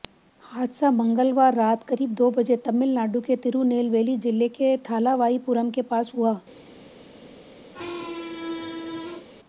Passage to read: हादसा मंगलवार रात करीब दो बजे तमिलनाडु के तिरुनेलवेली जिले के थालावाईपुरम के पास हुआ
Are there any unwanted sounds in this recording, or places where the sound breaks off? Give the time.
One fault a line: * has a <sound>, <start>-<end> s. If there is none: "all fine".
* has a squeak, 7.7-9.3 s